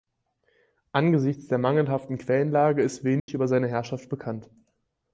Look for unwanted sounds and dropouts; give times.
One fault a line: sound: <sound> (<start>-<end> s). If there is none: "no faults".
sound: dropout (3.2-3.3 s)